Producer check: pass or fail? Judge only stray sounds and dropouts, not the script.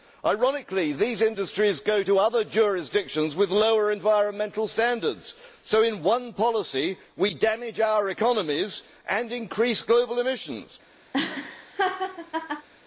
fail